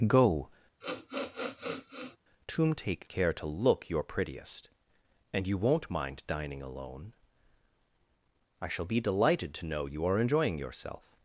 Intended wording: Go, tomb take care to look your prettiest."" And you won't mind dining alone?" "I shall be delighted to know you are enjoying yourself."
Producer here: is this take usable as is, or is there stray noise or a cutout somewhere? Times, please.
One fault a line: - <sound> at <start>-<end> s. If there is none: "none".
- sniff at 0.8-2.2 s